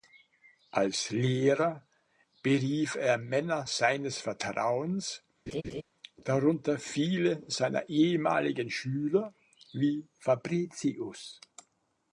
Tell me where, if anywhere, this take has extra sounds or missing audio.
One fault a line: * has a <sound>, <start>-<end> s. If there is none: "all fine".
* has a laugh, 5.5-5.8 s